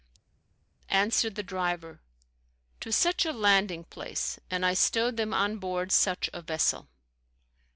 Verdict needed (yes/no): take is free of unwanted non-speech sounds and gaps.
yes